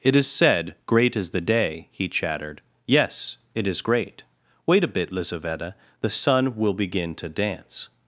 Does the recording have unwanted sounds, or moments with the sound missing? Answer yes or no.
no